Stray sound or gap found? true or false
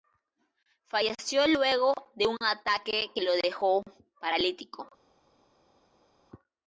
false